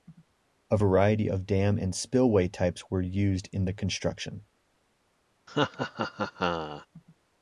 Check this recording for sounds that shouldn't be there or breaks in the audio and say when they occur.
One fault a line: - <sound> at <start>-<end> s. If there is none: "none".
- laugh at 5.5-6.9 s